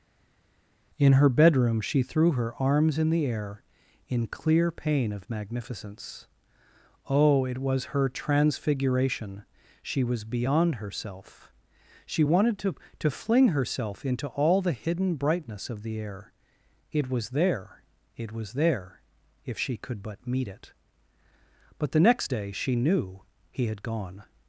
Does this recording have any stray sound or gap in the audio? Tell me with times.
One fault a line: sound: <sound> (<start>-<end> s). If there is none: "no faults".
no faults